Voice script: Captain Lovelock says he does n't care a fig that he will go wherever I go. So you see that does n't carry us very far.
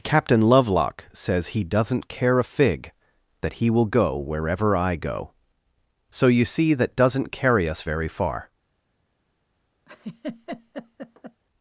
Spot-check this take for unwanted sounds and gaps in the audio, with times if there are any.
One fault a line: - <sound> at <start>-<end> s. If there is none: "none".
- laugh at 9.9-11.4 s